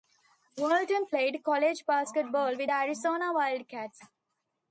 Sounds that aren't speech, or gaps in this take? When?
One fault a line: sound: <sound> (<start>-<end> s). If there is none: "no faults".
no faults